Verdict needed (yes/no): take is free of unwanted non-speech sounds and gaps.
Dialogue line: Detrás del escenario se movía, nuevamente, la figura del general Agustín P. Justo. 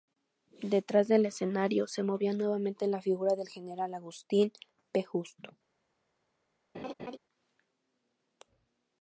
no